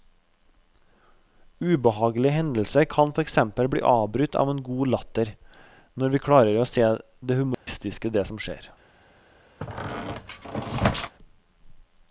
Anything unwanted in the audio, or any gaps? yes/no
yes